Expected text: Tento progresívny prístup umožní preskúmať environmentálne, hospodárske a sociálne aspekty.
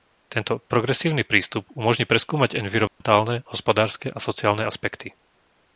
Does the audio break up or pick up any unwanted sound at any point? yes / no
yes